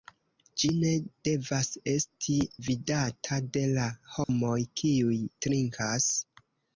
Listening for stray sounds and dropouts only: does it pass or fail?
fail